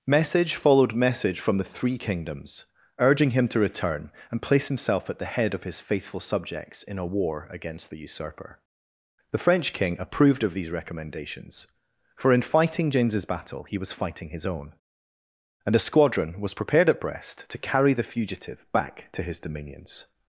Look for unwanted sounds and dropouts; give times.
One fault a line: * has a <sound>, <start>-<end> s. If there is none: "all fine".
all fine